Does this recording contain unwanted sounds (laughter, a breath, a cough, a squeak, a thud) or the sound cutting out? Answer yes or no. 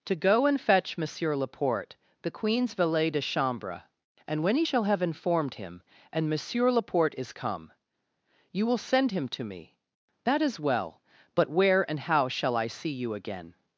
no